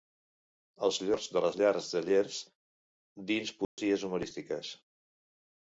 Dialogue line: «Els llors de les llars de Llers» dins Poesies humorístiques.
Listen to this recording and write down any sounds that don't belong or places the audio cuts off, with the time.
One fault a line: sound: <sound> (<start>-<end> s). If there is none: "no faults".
sound: dropout (3.6-3.8 s)